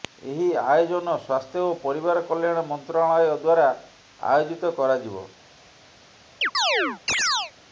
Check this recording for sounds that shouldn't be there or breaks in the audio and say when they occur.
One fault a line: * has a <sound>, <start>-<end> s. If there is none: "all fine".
* has a chirp, 6.4-7.5 s